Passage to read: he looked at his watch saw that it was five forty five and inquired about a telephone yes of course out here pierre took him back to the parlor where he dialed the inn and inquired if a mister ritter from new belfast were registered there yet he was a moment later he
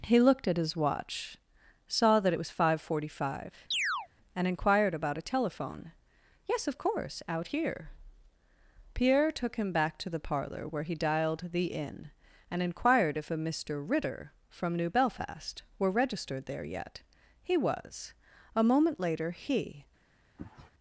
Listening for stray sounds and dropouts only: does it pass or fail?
fail